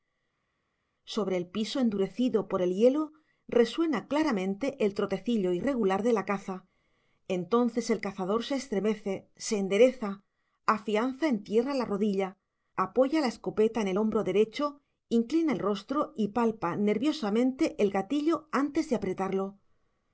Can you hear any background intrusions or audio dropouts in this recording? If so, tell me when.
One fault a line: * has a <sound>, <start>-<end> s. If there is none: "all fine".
all fine